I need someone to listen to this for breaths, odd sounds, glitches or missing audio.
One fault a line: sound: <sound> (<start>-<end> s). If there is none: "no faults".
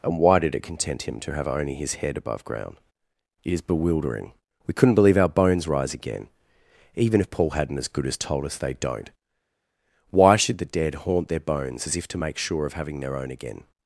no faults